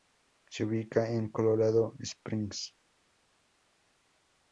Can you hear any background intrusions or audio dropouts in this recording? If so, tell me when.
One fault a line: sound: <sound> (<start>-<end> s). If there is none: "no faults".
no faults